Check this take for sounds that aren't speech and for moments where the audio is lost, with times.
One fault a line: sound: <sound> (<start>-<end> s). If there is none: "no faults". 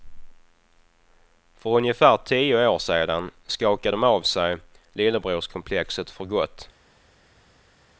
no faults